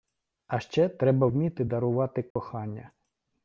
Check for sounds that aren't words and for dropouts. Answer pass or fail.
fail